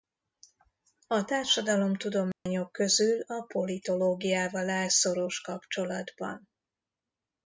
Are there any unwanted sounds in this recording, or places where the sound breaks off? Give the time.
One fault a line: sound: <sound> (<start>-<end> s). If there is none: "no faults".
sound: dropout (2.3-2.5 s)